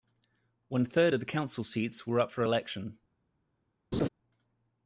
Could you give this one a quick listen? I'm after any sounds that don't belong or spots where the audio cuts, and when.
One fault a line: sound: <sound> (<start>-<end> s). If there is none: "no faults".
sound: laugh (3.9-4.1 s)